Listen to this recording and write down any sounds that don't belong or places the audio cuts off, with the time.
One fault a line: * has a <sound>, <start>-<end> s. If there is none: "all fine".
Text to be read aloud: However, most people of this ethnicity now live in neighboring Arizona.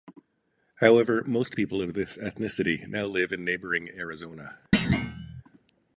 * has a thud, 4.7-5.4 s